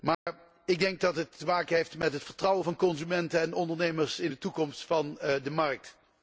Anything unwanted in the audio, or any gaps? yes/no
yes